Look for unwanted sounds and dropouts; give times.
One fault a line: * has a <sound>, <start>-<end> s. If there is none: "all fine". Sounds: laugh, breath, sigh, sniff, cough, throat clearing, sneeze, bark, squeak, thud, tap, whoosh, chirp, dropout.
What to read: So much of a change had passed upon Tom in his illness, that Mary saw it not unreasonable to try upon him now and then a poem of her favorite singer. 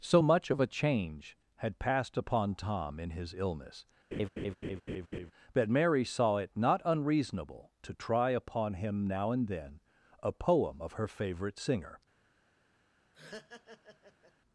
* has a laugh, 4.1-5.3 s
* has a laugh, 13.1-14.3 s